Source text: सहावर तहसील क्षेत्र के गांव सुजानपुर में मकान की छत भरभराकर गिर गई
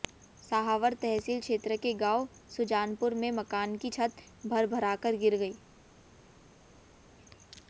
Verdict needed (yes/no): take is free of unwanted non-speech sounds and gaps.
yes